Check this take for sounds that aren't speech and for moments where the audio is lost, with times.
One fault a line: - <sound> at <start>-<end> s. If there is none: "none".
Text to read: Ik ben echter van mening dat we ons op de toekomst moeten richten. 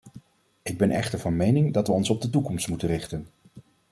none